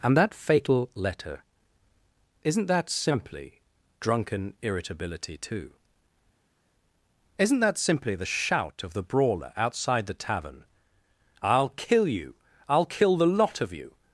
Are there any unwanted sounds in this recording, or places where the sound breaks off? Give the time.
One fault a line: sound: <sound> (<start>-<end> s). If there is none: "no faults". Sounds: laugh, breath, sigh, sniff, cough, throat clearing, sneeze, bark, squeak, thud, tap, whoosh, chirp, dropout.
no faults